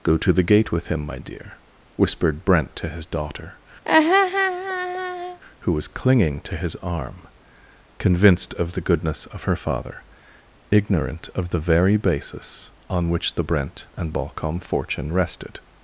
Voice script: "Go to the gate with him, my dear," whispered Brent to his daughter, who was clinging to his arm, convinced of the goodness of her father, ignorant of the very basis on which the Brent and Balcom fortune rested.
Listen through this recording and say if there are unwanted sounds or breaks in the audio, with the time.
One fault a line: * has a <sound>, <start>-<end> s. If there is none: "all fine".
* has a laugh, 3.9-5.4 s